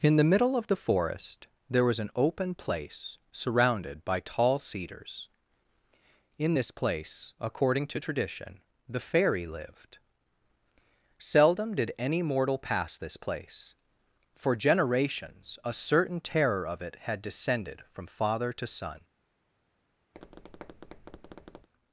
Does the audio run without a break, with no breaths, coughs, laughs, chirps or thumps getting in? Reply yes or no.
no